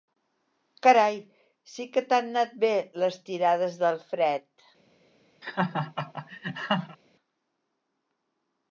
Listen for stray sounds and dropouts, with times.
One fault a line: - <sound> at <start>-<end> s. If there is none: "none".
- laugh at 5.4-7.0 s